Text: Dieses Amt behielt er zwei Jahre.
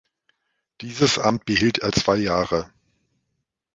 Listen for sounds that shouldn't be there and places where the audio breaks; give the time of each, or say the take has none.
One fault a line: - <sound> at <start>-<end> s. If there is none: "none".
none